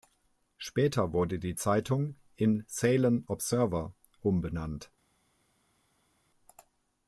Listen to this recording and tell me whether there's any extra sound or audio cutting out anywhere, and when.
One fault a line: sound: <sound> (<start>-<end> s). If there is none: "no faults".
no faults